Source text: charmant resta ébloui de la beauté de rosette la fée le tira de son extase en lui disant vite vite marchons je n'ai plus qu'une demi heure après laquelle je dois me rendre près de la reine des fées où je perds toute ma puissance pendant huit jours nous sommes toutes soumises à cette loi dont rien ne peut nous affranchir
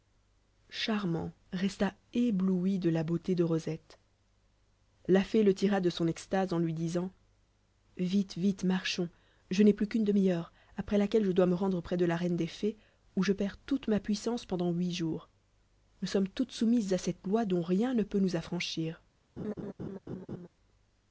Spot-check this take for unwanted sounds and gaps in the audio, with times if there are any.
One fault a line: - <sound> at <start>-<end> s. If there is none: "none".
- laugh at 19.4-20.5 s